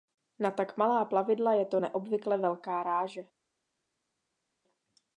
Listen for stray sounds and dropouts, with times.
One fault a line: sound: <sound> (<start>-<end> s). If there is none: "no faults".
no faults